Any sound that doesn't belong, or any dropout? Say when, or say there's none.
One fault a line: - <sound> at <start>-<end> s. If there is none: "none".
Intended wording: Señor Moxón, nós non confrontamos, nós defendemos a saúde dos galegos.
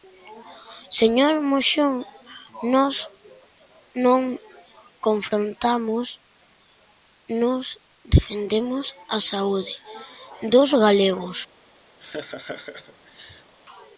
- laugh at 12.0-13.5 s